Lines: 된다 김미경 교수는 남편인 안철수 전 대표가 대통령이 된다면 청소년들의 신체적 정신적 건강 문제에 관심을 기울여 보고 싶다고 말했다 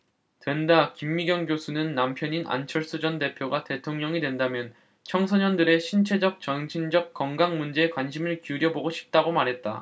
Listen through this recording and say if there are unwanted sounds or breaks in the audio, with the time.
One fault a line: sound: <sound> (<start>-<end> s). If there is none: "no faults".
no faults